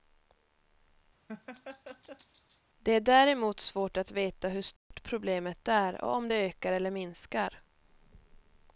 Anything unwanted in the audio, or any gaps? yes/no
yes